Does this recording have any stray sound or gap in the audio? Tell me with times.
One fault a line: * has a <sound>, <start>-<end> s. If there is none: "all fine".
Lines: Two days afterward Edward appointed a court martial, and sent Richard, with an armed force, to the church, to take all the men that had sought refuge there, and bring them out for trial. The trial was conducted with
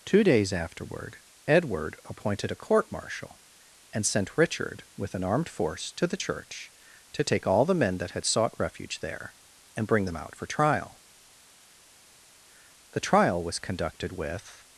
all fine